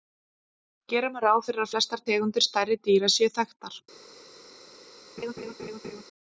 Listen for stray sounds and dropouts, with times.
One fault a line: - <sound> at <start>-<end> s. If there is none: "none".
- laugh at 5.2-6.0 s